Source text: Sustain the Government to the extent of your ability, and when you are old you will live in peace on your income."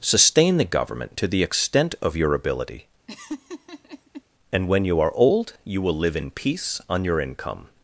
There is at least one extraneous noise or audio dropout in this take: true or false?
true